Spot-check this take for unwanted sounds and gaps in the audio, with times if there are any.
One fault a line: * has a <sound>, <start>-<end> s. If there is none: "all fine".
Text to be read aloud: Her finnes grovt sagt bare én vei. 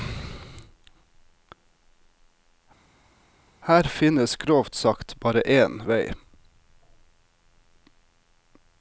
all fine